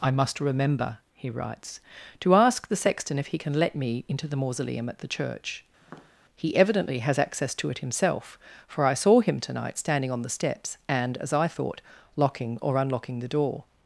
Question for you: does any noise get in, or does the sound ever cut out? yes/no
yes